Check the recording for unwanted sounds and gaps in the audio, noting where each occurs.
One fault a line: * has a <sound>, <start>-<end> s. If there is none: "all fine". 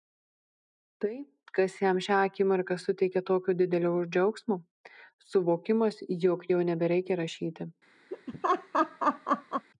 * has a laugh, 8.1-9.7 s